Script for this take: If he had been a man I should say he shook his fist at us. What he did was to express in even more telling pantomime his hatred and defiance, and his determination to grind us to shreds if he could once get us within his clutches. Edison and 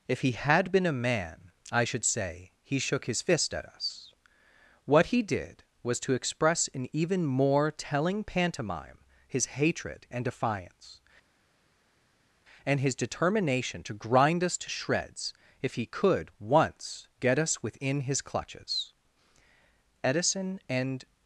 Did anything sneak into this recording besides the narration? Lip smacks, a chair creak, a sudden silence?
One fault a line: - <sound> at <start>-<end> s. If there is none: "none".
none